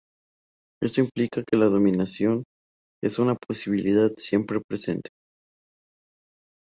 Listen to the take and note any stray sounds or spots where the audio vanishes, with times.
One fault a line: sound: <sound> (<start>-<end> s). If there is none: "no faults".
no faults